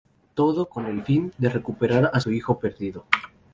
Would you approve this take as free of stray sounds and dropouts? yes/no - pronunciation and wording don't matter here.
yes